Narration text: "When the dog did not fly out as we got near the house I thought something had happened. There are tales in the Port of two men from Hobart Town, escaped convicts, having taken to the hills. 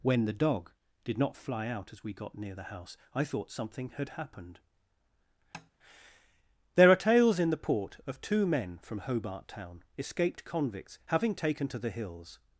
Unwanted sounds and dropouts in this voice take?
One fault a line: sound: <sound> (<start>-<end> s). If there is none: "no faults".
sound: tap (5.5-5.7 s)